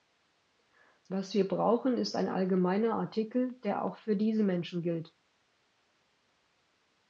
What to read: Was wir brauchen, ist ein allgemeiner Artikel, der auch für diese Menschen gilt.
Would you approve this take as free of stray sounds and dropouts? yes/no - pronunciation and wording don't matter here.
yes